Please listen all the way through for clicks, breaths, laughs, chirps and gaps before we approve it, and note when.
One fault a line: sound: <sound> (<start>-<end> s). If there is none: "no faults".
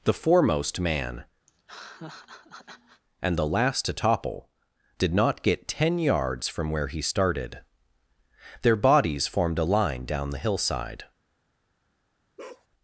sound: laugh (1.5-3.0 s)
sound: bark (12.4-12.7 s)